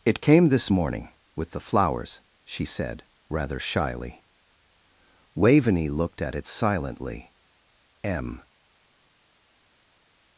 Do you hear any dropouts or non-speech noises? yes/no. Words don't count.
no